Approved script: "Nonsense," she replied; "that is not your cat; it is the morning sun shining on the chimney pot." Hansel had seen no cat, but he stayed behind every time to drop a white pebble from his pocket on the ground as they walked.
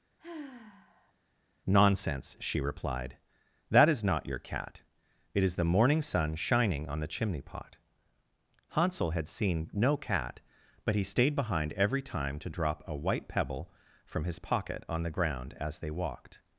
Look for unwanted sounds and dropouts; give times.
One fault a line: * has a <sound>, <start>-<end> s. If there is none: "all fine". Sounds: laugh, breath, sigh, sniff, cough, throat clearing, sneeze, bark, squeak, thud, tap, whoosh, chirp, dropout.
* has a sigh, 0.2-1.1 s